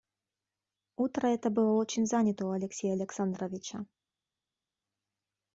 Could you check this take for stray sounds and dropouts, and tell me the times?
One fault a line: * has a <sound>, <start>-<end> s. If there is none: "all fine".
all fine